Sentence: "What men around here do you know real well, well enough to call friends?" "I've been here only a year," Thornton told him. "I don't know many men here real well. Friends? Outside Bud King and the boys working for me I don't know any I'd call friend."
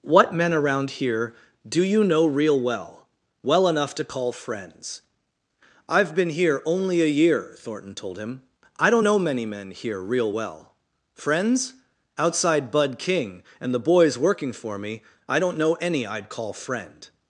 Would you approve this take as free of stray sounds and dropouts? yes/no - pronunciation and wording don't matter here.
yes